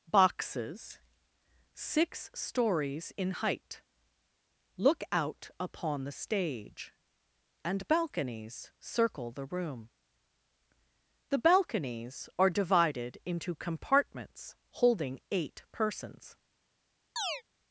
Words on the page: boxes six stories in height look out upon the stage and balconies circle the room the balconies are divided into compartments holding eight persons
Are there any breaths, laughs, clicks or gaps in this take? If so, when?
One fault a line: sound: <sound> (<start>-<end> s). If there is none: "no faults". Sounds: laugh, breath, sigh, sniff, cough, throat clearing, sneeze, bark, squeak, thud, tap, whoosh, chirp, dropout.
sound: chirp (17.2-17.4 s)